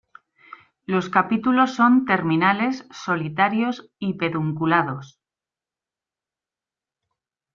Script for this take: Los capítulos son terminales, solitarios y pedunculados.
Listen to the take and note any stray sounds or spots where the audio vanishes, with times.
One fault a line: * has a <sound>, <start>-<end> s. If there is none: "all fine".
all fine